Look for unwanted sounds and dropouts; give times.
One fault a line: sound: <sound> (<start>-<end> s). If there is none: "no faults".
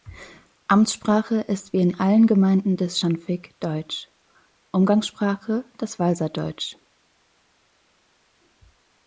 no faults